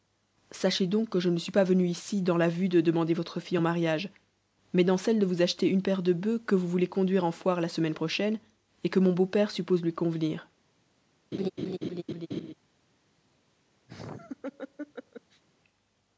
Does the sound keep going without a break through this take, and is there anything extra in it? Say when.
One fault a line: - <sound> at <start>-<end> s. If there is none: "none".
- laugh at 11.3-12.5 s
- laugh at 13.9-15.4 s